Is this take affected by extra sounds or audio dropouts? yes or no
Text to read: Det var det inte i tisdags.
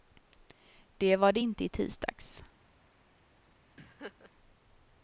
yes